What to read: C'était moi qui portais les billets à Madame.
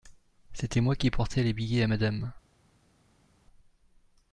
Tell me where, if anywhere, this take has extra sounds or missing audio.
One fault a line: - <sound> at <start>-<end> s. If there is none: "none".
none